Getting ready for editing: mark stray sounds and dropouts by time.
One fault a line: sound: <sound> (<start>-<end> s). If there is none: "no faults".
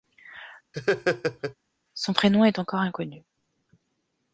sound: laugh (0.7-1.5 s)